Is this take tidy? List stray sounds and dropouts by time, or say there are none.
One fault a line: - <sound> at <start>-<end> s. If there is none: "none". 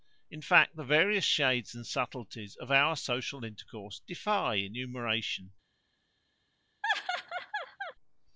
- laugh at 6.8-7.9 s